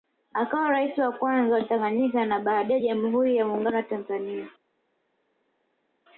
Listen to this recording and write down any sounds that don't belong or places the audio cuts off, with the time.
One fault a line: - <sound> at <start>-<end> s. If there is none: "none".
none